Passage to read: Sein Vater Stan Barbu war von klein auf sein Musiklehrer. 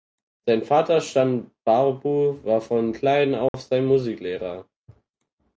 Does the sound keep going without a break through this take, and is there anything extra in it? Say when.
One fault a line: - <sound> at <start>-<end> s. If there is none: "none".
- dropout at 3.5-3.5 s